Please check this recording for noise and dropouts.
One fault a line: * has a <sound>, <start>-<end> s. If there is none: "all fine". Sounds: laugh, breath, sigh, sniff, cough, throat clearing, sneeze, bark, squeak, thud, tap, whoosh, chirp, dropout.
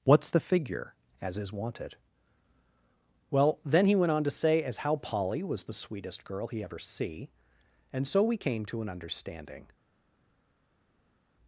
all fine